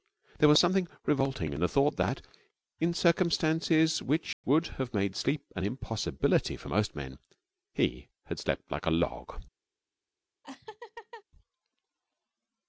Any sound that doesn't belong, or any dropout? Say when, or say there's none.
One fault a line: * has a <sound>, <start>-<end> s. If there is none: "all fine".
* has a dropout, 4.3-4.4 s
* has a laugh, 10.4-11.2 s